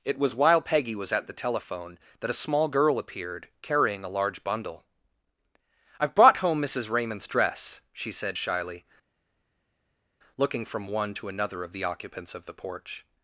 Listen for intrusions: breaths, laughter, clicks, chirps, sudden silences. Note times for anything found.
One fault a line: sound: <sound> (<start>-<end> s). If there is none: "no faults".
no faults